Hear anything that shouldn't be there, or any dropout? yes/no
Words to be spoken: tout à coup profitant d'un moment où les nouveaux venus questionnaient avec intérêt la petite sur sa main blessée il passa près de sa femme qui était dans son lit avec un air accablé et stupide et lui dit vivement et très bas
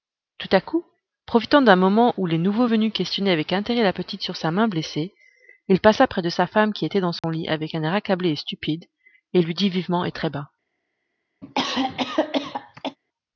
yes